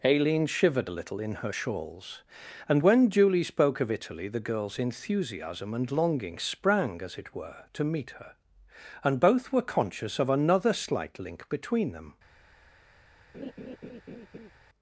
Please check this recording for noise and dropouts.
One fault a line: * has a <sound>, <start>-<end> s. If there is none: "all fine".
* has a laugh, 13.3-14.5 s